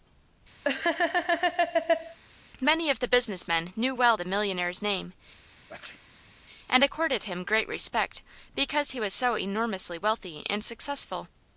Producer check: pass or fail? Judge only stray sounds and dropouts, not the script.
fail